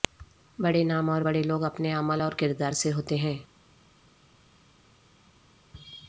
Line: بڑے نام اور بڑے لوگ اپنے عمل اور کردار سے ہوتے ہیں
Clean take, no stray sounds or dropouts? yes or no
yes